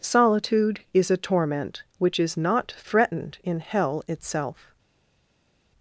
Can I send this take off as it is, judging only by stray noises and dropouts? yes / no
yes